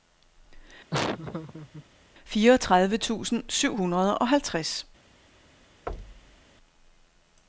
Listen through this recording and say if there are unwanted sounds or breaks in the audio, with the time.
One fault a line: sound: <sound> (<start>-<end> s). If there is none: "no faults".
sound: laugh (0.9-1.9 s)
sound: thud (5.9-6.4 s)